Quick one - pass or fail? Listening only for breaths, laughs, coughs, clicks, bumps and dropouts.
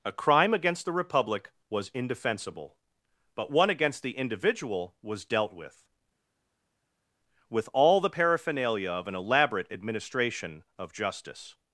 pass